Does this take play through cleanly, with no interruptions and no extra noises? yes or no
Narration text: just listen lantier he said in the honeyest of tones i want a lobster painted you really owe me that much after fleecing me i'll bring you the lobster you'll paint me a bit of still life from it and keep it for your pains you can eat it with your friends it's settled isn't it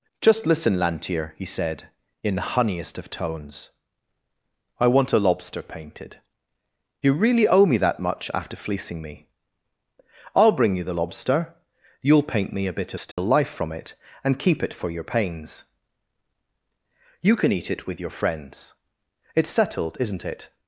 no